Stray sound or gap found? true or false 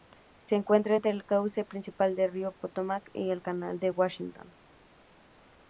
false